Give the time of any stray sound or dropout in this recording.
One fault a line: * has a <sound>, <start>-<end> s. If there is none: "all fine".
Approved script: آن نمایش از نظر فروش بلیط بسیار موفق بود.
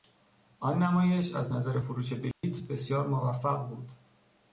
* has a dropout, 2.3-2.4 s